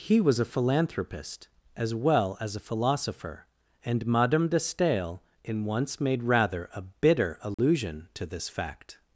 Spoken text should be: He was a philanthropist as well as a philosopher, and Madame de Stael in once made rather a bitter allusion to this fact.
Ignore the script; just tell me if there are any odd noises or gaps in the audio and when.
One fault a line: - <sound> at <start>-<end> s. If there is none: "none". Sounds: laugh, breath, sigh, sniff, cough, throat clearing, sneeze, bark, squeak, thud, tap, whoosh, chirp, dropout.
- dropout at 7.5-7.6 s